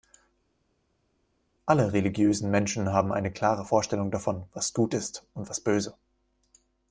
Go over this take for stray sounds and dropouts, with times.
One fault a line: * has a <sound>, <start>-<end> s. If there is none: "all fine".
all fine